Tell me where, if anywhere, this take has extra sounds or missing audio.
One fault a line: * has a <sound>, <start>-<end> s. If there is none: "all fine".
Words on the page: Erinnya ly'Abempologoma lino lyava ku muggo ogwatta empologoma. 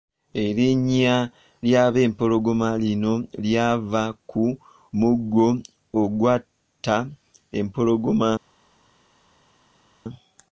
all fine